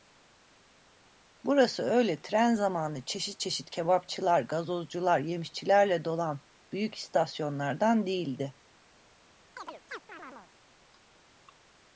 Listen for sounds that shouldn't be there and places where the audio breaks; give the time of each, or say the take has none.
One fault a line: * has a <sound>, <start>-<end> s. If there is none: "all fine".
* has a chirp, 9.6-10.5 s